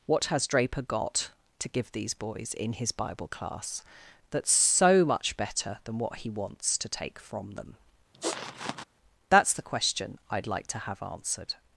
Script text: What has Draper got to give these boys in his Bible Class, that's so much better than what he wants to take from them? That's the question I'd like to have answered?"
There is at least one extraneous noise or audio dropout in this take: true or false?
true